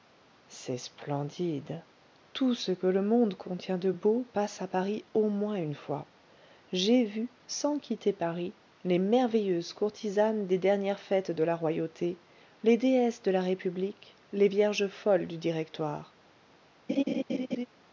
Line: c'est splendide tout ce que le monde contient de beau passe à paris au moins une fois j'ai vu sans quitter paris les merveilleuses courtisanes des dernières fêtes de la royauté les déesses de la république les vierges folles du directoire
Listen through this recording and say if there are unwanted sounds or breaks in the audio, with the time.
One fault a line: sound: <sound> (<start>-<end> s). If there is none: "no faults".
sound: laugh (16.9-17.7 s)